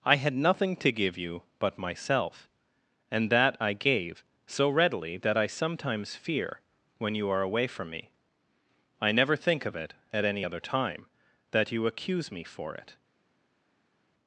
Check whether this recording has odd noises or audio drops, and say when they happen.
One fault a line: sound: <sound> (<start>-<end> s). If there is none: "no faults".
no faults